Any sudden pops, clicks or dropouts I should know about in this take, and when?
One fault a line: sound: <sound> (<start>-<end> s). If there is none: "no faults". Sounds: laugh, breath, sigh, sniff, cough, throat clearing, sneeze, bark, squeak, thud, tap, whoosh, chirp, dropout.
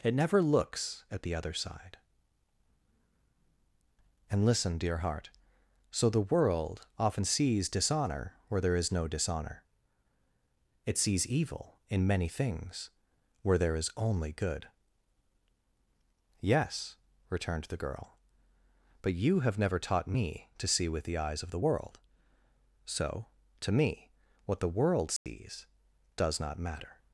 sound: dropout (25.2-25.3 s)